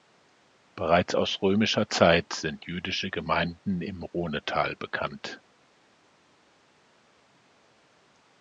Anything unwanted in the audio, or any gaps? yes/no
no